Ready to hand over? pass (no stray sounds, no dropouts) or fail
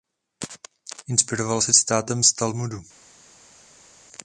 pass